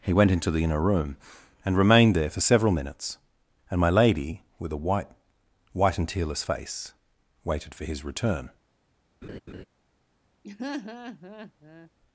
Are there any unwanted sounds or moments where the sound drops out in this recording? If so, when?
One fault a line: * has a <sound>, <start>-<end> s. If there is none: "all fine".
* has a laugh, 9.2-9.6 s
* has a laugh, 10.4-11.9 s